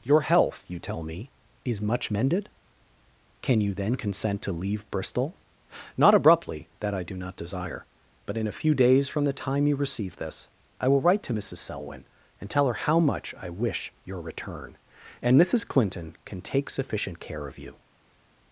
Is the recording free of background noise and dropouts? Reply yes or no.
yes